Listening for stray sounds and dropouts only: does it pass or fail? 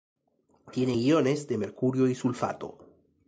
pass